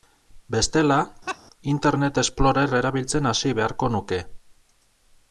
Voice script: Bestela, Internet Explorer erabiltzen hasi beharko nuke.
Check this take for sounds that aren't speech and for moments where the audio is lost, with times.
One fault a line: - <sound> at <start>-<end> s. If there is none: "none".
- laugh at 1.3-1.4 s